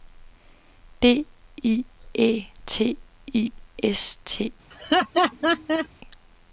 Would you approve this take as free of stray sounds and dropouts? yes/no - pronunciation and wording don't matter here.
no